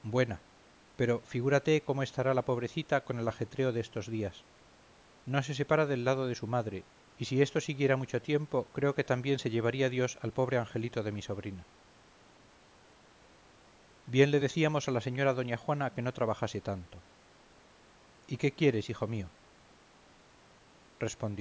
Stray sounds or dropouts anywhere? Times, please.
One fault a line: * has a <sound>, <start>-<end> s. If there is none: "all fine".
all fine